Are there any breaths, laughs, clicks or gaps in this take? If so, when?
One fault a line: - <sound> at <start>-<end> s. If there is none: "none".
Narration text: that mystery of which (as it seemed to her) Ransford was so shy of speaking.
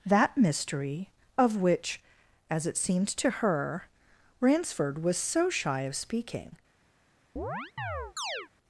- chirp at 7.4-8.5 s